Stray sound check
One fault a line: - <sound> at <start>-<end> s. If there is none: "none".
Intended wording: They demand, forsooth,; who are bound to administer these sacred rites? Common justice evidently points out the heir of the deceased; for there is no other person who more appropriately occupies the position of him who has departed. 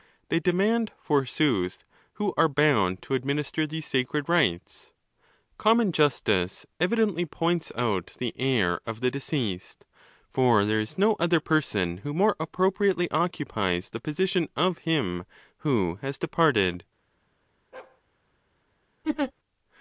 - bark at 17.7-18.0 s
- laugh at 19.0-19.3 s